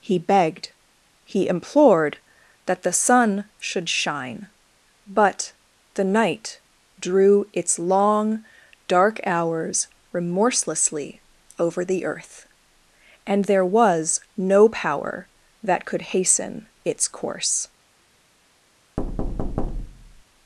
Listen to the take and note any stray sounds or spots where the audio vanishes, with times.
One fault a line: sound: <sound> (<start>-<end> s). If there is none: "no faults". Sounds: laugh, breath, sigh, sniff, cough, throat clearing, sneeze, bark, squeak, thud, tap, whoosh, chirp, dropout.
sound: thud (19.0-20.2 s)